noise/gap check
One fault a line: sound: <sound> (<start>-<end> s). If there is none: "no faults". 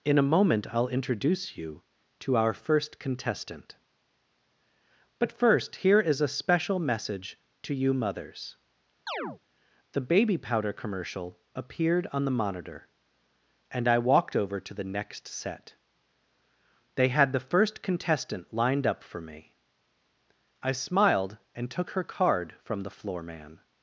sound: chirp (9.1-9.4 s)